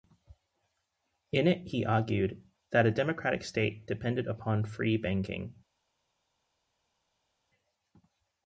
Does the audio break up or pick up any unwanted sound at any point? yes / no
no